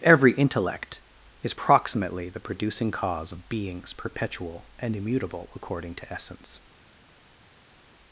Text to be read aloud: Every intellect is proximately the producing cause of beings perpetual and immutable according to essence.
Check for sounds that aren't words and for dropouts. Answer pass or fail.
pass